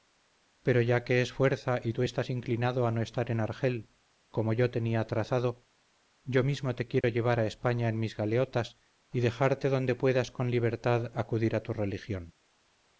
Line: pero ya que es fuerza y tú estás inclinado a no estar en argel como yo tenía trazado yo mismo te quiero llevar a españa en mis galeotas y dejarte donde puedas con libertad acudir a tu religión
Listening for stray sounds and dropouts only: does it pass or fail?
fail